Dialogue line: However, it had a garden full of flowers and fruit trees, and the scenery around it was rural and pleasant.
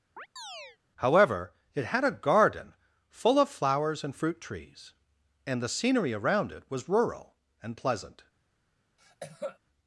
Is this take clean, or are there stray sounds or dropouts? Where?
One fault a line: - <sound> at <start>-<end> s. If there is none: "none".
- chirp at 0.2-0.8 s
- cough at 9.0-9.6 s